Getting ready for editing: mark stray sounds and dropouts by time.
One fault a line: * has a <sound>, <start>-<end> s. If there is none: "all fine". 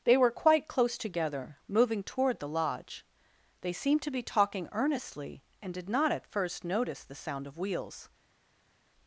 all fine